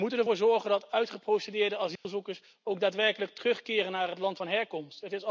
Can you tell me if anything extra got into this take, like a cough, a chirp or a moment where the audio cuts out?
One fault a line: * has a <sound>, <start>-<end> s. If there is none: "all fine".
* has a dropout, 2.0-2.0 s